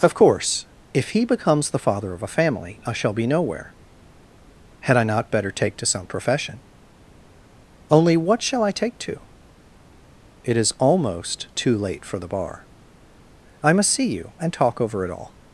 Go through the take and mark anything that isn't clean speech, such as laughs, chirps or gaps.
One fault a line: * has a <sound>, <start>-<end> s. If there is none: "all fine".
all fine